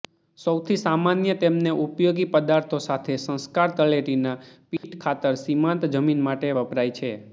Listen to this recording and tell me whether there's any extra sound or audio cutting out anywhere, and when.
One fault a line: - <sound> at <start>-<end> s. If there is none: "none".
- dropout at 4.8-4.8 s